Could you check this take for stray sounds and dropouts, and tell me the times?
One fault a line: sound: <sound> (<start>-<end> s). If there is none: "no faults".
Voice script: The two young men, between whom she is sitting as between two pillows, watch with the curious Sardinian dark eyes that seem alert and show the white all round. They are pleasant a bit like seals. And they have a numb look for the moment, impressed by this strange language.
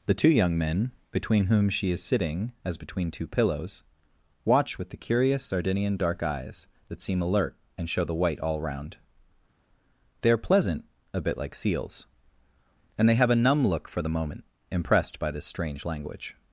no faults